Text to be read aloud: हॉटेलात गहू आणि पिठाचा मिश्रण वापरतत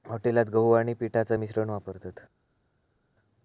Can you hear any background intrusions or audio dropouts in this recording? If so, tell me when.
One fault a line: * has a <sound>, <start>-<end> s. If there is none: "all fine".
all fine